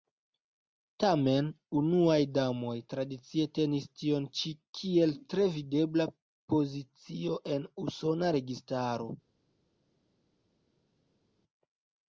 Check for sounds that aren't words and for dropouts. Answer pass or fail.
pass